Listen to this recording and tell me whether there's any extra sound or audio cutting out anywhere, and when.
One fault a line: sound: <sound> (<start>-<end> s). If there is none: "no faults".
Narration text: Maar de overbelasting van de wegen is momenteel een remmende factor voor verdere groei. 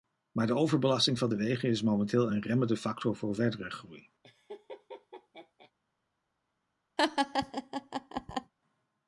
sound: laugh (4.2-5.7 s)
sound: laugh (7.0-8.5 s)